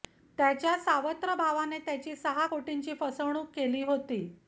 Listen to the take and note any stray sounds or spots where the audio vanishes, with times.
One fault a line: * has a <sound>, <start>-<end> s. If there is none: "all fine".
all fine